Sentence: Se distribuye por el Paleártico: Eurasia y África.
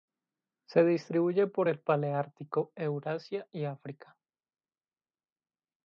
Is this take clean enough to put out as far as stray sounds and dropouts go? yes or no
yes